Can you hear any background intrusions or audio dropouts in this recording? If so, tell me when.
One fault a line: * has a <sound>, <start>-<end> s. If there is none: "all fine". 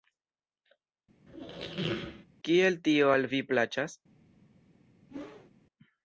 * has a squeak, 1.3-2.3 s
* has a whoosh, 5.1-5.5 s